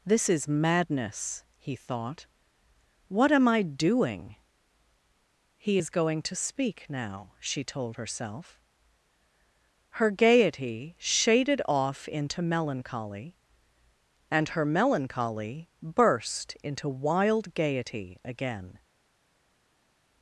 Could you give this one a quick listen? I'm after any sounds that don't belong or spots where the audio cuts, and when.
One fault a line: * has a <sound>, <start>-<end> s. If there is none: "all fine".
all fine